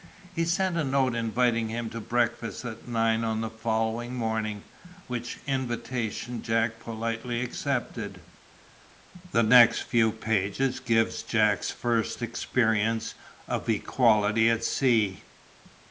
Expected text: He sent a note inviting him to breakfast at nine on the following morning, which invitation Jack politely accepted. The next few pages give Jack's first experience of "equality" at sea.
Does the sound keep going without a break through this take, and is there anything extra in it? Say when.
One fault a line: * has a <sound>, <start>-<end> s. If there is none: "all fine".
all fine